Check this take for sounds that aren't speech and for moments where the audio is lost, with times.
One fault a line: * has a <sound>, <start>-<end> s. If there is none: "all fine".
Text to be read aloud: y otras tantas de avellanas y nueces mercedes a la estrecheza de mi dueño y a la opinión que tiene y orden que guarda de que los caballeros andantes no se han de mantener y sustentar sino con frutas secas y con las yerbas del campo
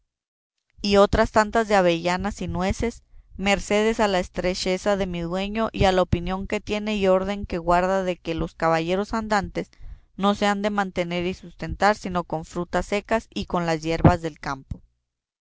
all fine